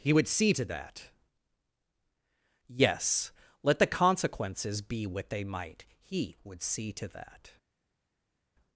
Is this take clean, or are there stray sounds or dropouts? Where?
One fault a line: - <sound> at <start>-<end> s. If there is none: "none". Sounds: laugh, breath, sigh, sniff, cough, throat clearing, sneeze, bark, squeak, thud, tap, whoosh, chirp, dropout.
none